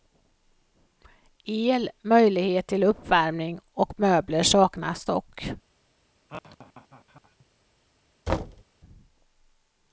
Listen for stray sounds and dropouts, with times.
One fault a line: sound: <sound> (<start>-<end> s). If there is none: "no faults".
sound: laugh (6.3-7.5 s)
sound: thud (8.3-8.6 s)